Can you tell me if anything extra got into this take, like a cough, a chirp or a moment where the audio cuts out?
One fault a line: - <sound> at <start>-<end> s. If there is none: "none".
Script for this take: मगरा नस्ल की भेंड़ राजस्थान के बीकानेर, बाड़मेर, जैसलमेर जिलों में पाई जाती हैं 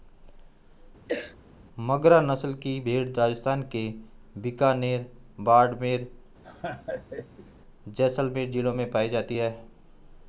- cough at 1.1-1.4 s
- laugh at 6.4-7.5 s